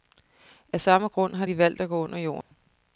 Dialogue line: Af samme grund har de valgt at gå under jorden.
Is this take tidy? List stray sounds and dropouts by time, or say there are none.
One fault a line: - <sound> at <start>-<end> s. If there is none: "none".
- dropout at 2.4-2.5 s